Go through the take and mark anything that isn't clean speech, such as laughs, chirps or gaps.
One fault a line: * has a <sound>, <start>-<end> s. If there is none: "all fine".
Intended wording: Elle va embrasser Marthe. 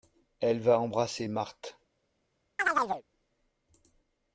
* has a chirp, 2.6-3.0 s